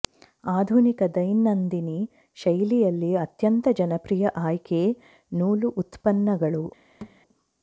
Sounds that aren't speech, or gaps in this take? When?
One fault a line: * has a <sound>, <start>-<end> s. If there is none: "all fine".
* has a thud, 7.0-7.2 s